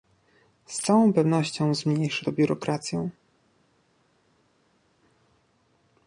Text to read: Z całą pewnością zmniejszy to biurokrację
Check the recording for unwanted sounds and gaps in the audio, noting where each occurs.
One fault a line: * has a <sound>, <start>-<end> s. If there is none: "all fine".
all fine